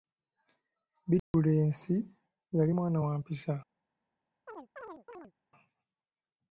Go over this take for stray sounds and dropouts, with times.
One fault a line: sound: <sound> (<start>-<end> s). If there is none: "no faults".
sound: dropout (1.2-1.3 s)
sound: chirp (4.5-5.3 s)